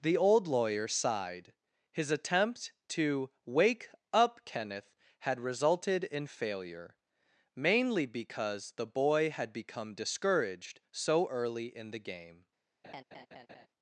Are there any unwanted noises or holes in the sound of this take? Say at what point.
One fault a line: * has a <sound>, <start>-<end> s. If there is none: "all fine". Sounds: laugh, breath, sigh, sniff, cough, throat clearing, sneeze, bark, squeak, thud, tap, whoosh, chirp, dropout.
* has a laugh, 12.8-13.7 s